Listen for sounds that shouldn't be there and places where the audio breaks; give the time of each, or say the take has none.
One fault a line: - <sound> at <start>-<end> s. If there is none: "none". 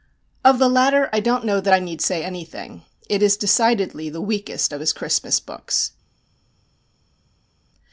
none